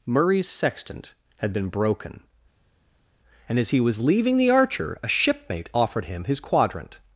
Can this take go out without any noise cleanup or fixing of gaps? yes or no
yes